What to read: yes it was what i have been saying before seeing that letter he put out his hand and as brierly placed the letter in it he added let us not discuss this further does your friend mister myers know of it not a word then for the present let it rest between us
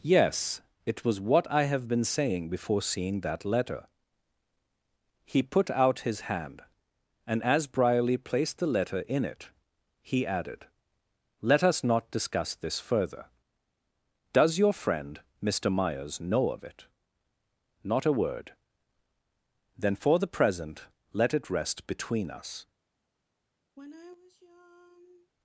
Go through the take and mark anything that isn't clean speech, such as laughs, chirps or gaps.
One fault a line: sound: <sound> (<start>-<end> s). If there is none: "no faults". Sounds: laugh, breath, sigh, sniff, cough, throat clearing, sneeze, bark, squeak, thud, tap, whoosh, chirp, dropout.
sound: sigh (23.8-25.3 s)